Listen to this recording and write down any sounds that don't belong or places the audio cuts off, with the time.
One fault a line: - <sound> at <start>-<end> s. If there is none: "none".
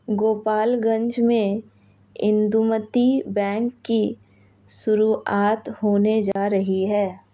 - dropout at 6.3-6.4 s